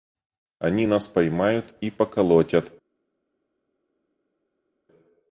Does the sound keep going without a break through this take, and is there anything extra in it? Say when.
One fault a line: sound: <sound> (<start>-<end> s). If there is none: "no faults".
no faults